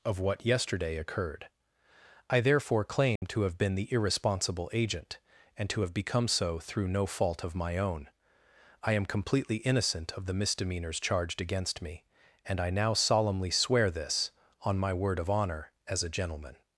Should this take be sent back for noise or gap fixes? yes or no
yes